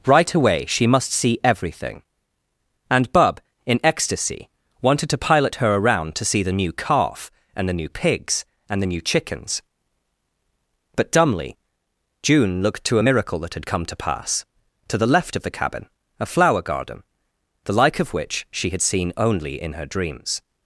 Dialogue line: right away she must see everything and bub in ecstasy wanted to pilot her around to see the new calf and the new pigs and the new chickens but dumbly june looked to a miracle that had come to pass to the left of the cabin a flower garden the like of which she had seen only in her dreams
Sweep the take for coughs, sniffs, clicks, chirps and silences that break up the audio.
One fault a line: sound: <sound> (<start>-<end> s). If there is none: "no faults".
no faults